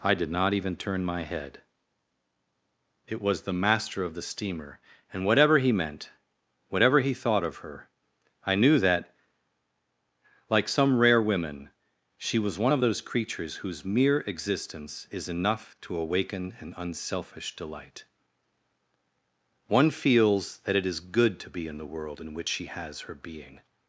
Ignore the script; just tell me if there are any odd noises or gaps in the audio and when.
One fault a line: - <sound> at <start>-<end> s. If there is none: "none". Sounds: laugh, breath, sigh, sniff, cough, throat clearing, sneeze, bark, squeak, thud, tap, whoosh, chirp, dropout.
none